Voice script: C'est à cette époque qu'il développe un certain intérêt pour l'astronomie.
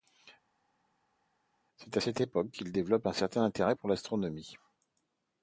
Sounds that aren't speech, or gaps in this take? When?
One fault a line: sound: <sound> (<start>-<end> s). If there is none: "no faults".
no faults